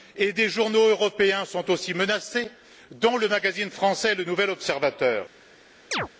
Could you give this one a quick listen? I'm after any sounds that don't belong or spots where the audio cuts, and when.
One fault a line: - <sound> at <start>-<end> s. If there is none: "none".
- chirp at 5.9-6.1 s